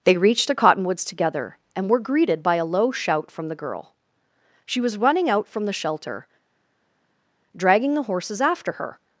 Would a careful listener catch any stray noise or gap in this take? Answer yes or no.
no